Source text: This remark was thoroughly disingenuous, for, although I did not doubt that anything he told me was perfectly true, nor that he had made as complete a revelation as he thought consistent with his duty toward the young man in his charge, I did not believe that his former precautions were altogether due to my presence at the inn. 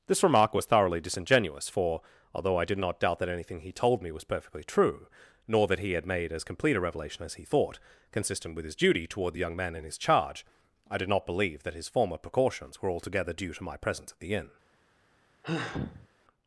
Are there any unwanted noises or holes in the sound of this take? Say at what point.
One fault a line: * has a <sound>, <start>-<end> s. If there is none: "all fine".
* has a sigh, 15.4-16.1 s